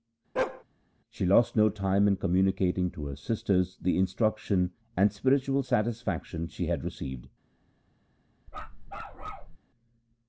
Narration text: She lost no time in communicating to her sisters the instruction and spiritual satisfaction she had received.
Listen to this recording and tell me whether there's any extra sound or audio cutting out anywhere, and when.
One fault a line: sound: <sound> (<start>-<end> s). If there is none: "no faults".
sound: bark (0.4-0.6 s)
sound: bark (8.5-9.6 s)